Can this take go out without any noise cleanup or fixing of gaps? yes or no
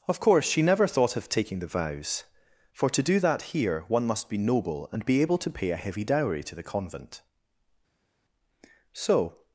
yes